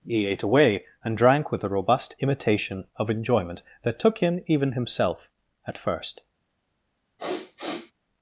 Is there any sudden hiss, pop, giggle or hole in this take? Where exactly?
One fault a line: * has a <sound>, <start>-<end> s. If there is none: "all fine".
* has a sniff, 7.2-7.9 s